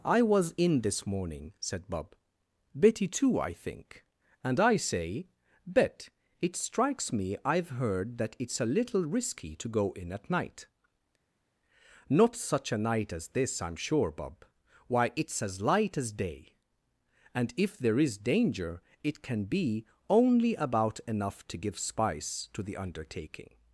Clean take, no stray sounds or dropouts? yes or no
yes